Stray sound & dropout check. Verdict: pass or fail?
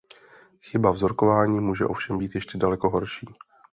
pass